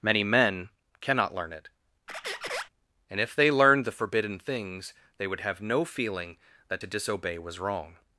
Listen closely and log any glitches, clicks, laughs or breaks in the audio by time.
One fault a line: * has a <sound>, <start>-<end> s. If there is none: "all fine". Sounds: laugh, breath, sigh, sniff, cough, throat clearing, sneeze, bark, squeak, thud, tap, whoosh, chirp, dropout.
* has a squeak, 2.1-2.7 s